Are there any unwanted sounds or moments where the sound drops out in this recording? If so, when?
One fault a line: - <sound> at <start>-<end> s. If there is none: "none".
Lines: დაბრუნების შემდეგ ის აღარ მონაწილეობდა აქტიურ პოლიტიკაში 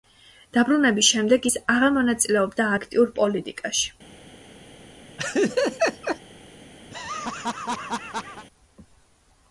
- laugh at 5.2-6.2 s
- laugh at 6.9-8.5 s